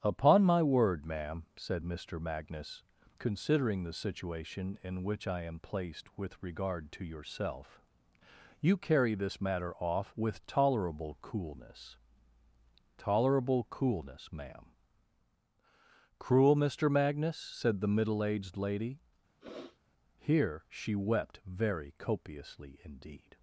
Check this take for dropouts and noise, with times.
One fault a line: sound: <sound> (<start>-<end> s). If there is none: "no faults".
sound: sniff (19.4-19.8 s)